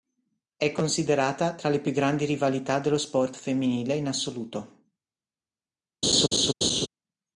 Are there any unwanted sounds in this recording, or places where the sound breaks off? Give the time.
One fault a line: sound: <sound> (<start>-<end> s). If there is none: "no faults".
sound: laugh (6.0-6.9 s)